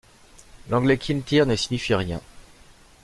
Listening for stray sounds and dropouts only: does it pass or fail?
pass